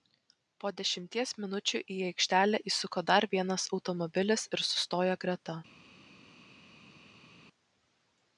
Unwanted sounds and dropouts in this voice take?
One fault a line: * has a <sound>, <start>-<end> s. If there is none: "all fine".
all fine